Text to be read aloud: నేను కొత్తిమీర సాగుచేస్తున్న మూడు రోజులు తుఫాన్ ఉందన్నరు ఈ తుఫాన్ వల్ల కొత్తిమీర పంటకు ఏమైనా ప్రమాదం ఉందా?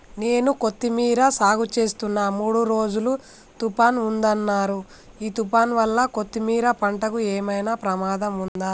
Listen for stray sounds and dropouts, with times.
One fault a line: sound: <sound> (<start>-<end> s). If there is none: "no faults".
sound: dropout (8.5-8.6 s)